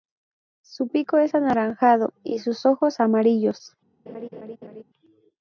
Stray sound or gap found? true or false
true